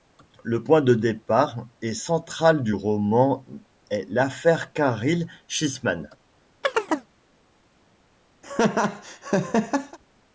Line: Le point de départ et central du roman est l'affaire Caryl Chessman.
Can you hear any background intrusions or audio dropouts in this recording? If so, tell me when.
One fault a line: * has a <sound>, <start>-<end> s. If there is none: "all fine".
* has a chirp, 6.6-7.1 s
* has a laugh, 8.4-10.0 s